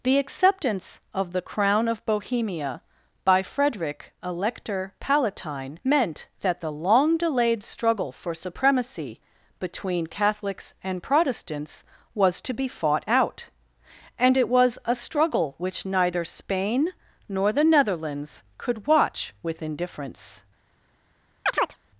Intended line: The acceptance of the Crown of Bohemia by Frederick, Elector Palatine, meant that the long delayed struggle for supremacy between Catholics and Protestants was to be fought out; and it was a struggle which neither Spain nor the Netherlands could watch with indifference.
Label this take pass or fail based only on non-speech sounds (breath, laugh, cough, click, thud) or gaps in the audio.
fail